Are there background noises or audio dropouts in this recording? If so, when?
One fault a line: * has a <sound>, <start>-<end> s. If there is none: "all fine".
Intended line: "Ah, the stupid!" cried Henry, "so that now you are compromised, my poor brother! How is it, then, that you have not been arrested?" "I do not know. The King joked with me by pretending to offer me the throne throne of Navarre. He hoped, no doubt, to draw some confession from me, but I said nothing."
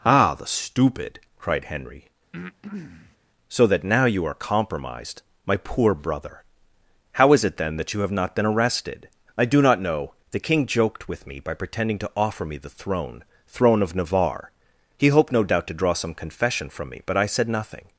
* has a breath, 2.3-3.2 s